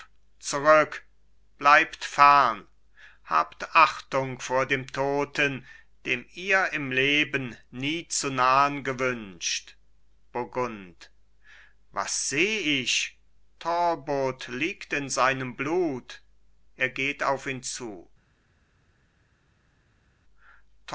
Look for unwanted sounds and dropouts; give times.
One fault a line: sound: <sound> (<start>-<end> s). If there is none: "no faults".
no faults